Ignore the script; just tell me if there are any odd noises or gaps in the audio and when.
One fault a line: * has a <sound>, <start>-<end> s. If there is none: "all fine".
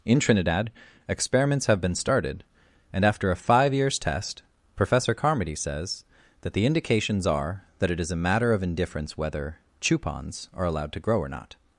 all fine